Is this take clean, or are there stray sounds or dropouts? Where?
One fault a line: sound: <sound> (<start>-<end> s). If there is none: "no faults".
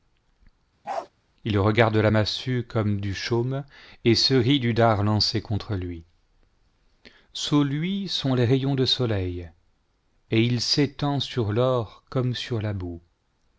sound: bark (0.8-1.1 s)